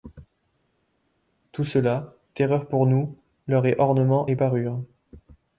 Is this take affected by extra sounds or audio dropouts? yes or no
no